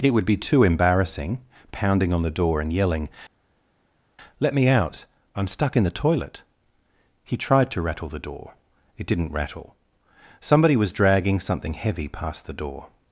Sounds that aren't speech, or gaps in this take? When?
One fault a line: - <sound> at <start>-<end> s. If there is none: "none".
none